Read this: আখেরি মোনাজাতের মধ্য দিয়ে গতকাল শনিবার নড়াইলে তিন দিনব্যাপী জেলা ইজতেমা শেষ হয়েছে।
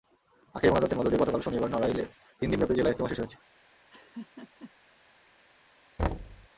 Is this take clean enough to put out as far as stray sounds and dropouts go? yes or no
no